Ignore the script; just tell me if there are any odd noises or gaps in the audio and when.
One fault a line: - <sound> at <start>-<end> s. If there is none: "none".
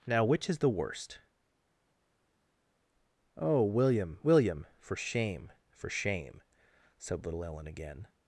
none